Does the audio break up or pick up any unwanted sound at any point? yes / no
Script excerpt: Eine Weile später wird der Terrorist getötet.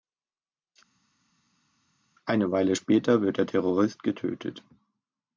no